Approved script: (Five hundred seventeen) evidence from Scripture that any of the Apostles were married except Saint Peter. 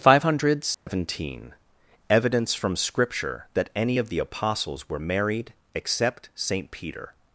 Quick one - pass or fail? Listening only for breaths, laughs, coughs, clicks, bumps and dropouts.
fail